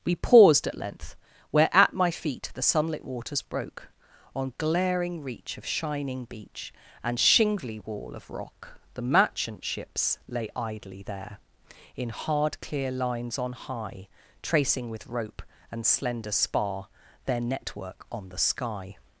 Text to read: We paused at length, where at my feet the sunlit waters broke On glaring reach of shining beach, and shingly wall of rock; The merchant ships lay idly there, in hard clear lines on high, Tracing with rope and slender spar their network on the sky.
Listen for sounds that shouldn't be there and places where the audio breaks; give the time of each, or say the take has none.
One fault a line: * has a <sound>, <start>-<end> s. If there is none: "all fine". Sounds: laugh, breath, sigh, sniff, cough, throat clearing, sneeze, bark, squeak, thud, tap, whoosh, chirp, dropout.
all fine